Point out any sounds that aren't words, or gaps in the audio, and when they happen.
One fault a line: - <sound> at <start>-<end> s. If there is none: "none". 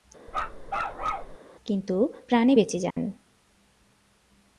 - bark at 0.3-1.4 s
- dropout at 2.9-3.0 s